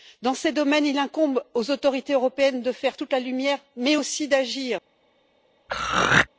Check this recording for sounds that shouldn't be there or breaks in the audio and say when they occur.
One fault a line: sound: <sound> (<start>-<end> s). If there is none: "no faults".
sound: throat clearing (5.7-6.3 s)